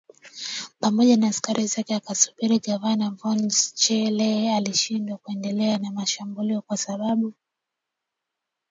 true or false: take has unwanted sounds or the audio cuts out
false